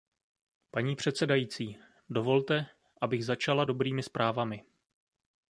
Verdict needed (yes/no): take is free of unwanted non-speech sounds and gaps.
yes